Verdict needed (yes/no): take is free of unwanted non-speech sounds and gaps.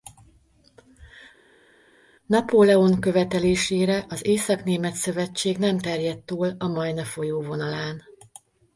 yes